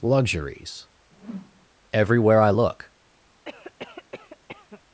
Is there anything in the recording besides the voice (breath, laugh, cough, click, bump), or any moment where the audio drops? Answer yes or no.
yes